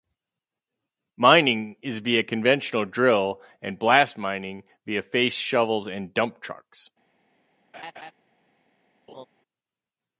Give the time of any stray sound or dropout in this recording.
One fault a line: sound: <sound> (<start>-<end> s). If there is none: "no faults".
sound: laugh (7.7-8.1 s)
sound: laugh (9.1-9.3 s)